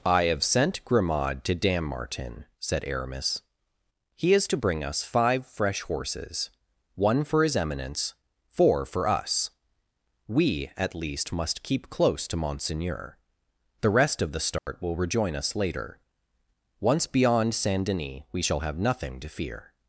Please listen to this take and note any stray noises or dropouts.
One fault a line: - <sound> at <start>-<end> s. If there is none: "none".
- dropout at 14.6-14.7 s